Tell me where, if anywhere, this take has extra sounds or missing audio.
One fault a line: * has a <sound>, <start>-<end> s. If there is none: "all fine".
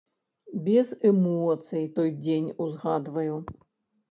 all fine